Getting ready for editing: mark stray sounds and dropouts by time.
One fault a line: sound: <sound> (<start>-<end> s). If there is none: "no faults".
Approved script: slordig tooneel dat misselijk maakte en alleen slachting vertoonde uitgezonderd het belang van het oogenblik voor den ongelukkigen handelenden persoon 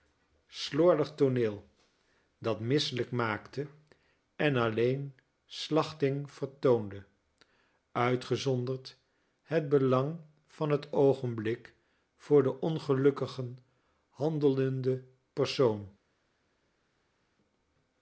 no faults